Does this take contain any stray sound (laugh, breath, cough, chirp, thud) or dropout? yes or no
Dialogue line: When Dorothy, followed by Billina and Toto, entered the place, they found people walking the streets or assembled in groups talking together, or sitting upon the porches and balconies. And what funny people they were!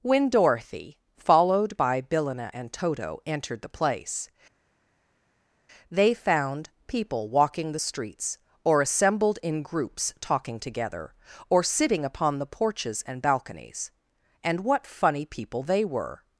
no